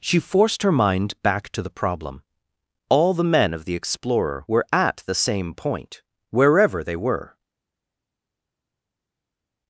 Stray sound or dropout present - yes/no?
no